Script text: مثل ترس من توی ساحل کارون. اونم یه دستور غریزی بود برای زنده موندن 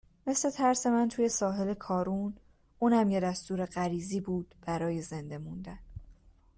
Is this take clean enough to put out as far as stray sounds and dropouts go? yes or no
yes